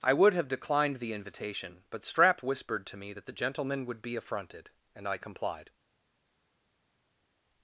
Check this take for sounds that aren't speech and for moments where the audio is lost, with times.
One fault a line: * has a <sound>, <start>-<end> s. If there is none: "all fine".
all fine